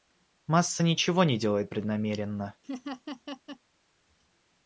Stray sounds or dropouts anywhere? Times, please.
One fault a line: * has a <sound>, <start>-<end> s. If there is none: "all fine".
* has a laugh, 2.6-3.6 s